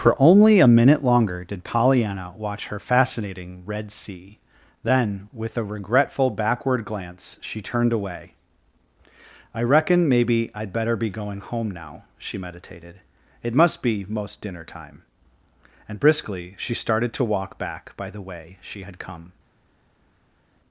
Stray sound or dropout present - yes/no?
no